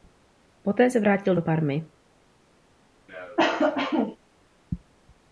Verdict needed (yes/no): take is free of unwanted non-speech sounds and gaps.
no